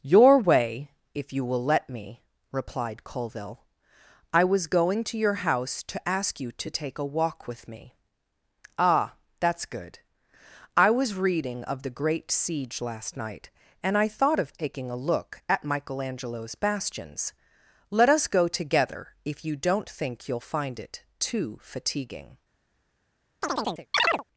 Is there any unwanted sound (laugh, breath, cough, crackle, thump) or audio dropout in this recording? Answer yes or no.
yes